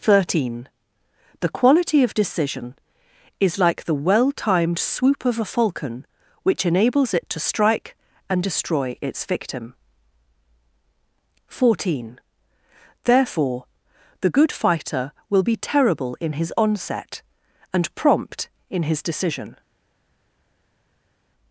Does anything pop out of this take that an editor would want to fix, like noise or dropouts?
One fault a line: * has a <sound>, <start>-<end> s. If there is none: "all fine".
all fine